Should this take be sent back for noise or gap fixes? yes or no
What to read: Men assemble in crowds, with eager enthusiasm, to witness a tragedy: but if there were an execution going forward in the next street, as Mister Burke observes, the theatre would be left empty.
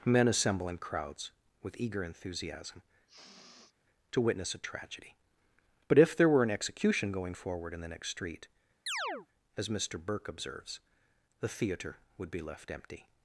yes